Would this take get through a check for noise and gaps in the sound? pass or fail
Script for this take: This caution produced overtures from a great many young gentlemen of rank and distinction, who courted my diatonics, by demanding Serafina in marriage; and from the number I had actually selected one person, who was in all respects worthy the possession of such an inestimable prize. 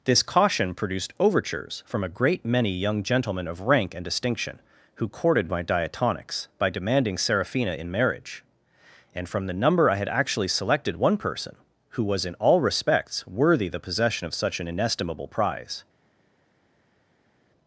pass